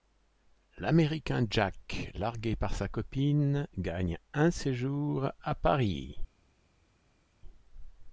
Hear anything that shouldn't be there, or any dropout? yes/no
no